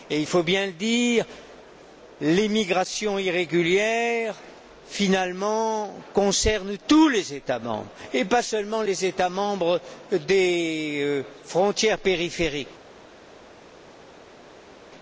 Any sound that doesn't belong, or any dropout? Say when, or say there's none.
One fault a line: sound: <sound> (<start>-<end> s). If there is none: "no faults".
no faults